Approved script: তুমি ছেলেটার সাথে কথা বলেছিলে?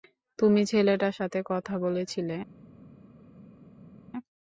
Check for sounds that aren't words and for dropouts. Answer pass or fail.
pass